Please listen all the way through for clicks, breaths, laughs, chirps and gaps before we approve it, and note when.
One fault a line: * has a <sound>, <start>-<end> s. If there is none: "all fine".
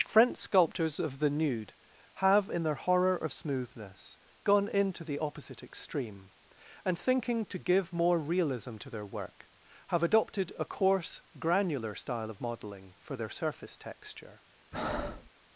* has a breath, 14.7-15.3 s